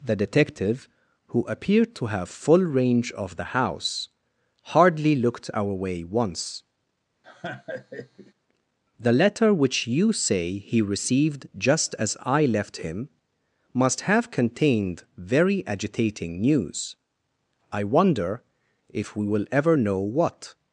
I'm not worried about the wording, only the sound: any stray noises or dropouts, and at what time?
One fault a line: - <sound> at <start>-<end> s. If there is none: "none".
- laugh at 7.2-8.3 s